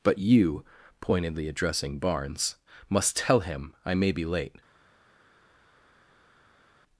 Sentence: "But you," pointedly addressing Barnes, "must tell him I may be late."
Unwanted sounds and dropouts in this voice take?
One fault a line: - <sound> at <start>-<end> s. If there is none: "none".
none